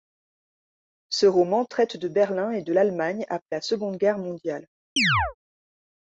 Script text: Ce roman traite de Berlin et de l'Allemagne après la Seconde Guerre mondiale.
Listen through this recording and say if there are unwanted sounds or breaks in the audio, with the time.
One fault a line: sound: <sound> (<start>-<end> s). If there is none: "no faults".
sound: chirp (5.0-5.3 s)